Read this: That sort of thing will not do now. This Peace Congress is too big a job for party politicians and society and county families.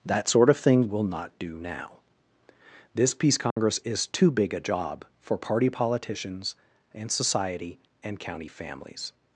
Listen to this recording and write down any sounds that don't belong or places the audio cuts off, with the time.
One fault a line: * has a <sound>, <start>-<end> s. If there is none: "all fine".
* has a dropout, 3.5-3.6 s